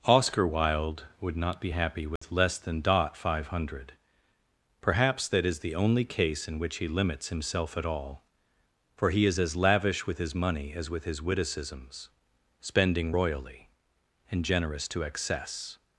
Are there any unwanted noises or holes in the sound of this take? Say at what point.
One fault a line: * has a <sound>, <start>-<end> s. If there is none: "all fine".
* has a dropout, 2.2-2.2 s